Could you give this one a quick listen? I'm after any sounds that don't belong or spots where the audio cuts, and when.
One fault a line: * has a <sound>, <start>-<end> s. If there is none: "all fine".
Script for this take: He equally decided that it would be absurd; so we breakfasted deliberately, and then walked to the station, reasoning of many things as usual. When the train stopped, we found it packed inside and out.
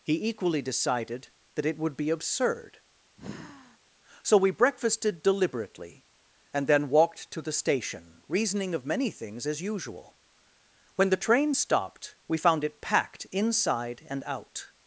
* has a sigh, 3.2-3.8 s